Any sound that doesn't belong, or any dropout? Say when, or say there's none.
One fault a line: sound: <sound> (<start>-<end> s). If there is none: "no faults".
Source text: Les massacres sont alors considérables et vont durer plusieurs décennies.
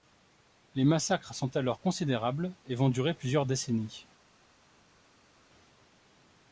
no faults